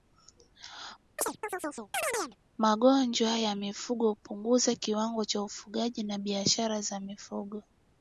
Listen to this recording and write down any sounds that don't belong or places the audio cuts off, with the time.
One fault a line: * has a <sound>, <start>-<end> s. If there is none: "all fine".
* has a chirp, 1.2-2.4 s